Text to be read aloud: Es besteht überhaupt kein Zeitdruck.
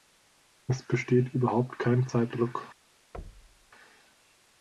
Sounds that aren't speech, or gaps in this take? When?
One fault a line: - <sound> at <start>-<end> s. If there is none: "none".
- thud at 3.1-3.7 s